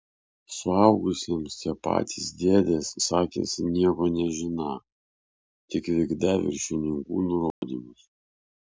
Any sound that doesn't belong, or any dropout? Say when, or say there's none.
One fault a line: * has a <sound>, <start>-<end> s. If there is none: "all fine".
* has a dropout, 7.5-7.6 s